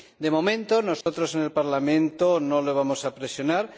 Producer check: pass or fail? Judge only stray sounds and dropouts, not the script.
fail